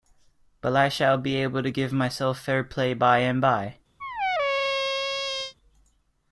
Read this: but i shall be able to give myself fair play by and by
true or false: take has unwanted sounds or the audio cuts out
true